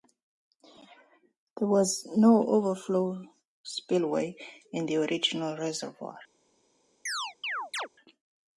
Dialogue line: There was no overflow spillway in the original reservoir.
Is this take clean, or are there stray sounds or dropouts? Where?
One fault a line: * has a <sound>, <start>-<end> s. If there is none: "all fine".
* has a chirp, 7.1-7.9 s